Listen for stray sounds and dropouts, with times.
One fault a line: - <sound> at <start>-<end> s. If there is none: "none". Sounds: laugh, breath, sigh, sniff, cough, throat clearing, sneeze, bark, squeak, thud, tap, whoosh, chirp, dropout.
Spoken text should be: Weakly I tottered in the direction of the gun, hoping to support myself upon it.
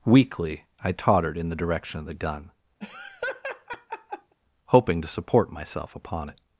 - laugh at 2.8-4.3 s